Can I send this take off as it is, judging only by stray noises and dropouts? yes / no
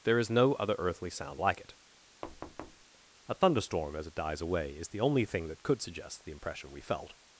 no